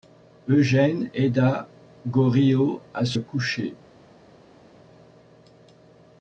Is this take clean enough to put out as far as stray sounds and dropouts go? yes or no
yes